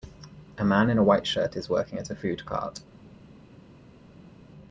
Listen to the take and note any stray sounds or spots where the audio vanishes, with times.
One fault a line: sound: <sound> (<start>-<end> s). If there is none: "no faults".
no faults